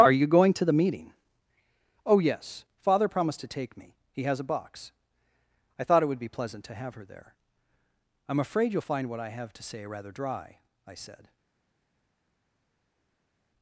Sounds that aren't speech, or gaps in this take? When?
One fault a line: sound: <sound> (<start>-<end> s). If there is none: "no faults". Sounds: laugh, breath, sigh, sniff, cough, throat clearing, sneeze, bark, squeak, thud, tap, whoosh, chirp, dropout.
no faults